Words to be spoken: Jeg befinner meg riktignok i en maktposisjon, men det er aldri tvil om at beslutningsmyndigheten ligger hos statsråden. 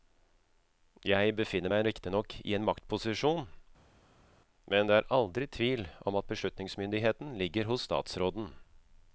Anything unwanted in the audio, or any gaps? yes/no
no